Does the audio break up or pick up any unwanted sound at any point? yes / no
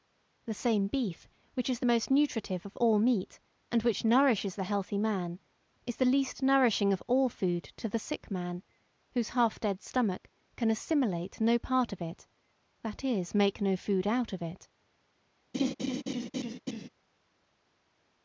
yes